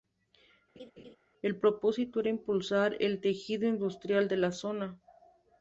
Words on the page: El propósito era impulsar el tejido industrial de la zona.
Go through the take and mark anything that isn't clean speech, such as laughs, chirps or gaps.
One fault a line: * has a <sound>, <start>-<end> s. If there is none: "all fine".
* has a laugh, 0.8-1.2 s